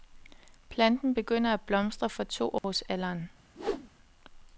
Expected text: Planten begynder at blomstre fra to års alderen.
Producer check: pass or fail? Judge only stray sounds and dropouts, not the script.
fail